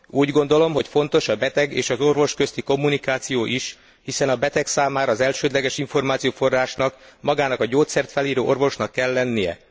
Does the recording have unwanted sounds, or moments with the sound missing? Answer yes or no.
no